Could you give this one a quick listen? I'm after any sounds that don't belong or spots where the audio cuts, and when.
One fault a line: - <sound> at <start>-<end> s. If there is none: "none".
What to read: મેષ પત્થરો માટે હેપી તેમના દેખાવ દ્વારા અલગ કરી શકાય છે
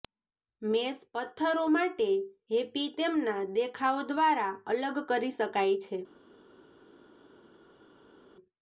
none